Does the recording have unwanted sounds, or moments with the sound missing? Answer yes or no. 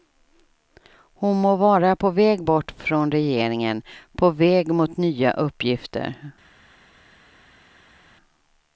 no